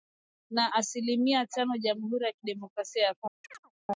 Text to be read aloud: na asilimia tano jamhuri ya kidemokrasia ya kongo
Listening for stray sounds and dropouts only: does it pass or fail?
fail